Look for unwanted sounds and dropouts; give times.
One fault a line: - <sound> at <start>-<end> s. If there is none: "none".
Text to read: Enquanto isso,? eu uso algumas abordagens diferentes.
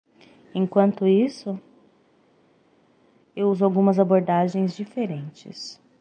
none